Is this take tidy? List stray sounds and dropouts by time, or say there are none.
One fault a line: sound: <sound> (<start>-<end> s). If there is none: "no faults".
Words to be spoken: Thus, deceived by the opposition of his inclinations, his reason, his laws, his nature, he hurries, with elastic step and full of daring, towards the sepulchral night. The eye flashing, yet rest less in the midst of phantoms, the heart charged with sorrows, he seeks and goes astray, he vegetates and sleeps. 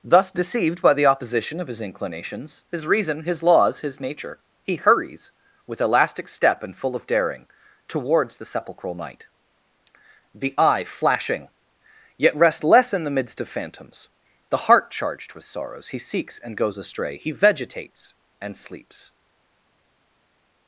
no faults